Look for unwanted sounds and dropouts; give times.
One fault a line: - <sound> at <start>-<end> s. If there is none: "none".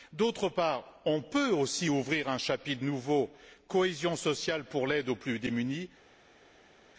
none